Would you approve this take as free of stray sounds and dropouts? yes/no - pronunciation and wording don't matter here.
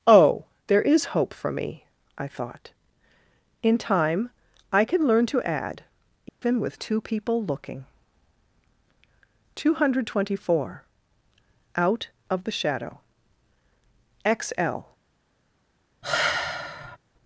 no